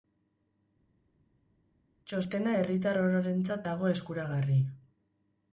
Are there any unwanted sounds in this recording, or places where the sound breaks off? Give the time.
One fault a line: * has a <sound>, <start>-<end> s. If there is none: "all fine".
all fine